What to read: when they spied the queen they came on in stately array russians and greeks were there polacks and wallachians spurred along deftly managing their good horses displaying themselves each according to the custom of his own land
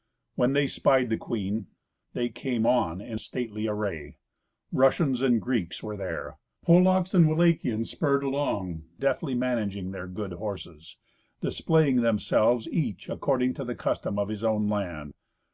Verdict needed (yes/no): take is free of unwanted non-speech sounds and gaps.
yes